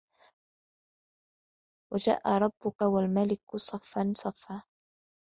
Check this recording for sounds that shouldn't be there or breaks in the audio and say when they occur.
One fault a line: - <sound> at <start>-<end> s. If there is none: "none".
none